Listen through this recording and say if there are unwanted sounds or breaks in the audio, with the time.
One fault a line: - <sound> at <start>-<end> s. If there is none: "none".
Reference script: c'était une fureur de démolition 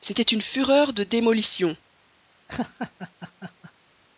- laugh at 2.5-3.7 s